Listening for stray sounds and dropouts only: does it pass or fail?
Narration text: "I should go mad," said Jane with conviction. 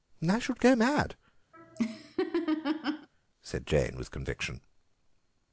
fail